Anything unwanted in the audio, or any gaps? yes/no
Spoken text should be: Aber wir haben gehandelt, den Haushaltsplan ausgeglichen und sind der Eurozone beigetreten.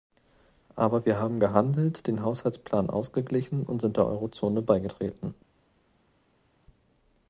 no